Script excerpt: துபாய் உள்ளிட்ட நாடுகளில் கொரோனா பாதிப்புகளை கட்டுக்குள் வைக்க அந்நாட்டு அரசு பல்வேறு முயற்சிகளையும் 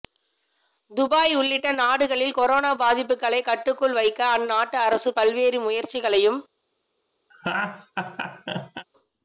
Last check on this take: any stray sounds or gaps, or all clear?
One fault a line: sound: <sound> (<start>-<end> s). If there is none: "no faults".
sound: laugh (7.3-8.9 s)